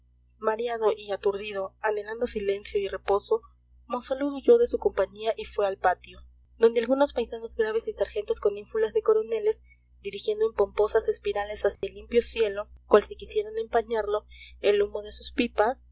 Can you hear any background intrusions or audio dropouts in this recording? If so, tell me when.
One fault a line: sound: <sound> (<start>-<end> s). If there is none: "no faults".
sound: dropout (11.8-11.8 s)